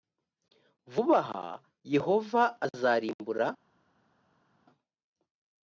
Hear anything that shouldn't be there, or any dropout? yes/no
no